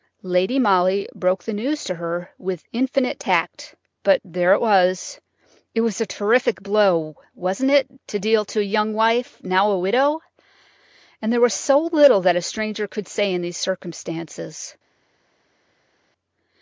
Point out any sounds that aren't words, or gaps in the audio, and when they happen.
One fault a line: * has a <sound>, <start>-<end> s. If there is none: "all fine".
all fine